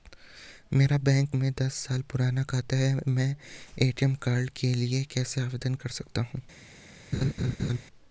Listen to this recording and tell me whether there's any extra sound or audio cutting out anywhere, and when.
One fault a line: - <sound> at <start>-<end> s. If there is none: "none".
- laugh at 7.1-7.8 s